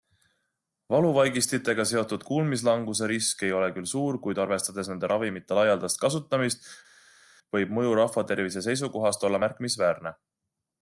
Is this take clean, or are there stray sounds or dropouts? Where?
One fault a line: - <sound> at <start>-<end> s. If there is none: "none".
none